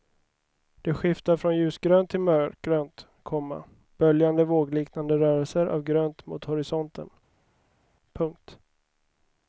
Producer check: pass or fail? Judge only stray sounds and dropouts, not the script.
pass